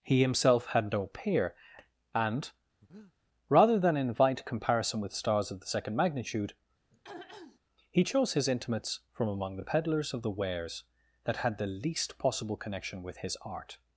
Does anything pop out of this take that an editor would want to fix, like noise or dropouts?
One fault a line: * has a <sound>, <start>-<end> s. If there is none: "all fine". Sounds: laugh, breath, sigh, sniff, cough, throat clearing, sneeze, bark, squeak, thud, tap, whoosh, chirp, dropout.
* has a breath, 2.8-3.1 s
* has a throat clearing, 6.9-7.6 s